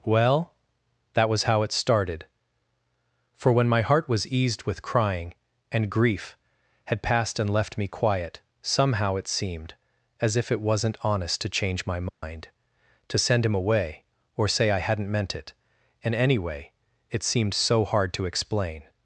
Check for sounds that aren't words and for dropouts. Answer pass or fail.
fail